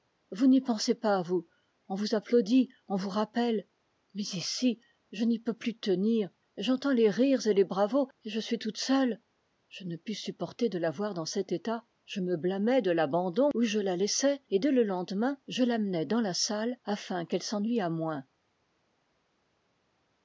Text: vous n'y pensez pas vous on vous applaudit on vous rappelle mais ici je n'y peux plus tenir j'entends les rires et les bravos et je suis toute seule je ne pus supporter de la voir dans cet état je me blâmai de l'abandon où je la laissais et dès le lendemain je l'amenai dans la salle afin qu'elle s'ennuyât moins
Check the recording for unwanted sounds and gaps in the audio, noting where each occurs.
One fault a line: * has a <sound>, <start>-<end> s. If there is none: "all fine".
all fine